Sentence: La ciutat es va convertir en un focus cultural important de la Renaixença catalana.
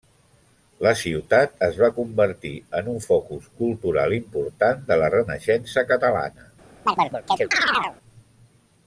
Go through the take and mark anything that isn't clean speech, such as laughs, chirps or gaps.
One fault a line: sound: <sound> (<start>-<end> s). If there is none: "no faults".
sound: chirp (6.9-8.0 s)